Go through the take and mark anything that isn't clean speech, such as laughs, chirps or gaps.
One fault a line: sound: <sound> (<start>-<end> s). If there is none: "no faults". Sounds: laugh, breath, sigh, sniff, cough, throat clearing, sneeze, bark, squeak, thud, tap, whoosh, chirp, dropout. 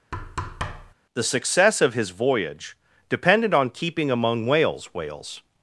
sound: thud (0.1-0.9 s)